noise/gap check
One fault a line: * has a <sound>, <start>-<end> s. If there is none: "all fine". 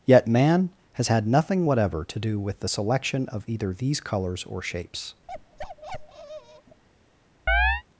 * has a bark, 5.3-6.8 s
* has a chirp, 7.5-7.8 s